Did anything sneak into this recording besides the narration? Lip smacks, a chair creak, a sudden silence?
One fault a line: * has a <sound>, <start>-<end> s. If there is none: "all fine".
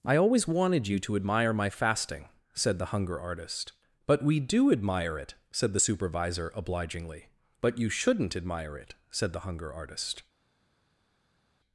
all fine